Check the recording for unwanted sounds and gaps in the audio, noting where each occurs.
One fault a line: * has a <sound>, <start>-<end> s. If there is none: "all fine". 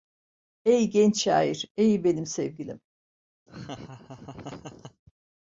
* has a laugh, 3.5-5.0 s